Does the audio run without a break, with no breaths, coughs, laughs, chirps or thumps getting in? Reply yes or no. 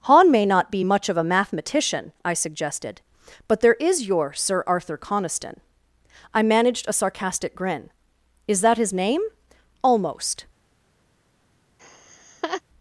no